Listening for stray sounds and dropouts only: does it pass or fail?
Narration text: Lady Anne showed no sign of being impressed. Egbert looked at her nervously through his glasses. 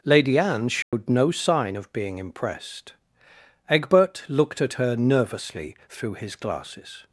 fail